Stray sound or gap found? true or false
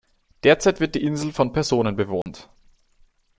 true